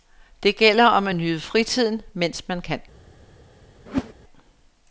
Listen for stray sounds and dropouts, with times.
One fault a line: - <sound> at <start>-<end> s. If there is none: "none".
- whoosh at 3.9-4.1 s